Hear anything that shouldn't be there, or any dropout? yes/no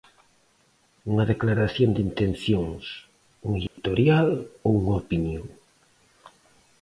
yes